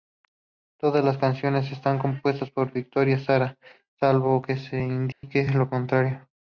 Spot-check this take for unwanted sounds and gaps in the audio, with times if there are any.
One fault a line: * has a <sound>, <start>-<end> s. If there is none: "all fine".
* has a dropout, 5.1-5.2 s